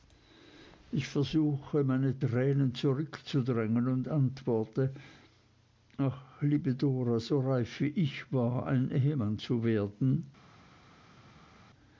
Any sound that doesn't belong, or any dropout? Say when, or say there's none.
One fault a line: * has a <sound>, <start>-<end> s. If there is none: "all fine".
all fine